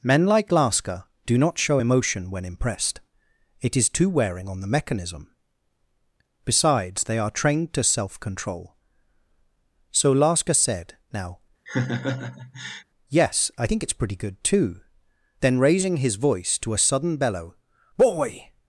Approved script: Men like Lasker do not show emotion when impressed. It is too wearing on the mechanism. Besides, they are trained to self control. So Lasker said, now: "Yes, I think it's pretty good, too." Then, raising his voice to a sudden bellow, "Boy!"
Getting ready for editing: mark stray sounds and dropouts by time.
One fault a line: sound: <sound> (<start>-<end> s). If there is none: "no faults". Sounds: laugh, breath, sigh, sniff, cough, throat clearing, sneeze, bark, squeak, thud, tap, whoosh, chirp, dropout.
sound: laugh (11.7-12.8 s)